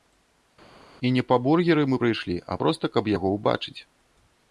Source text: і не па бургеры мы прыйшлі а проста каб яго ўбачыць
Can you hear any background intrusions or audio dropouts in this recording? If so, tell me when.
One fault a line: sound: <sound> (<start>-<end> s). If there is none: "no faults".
no faults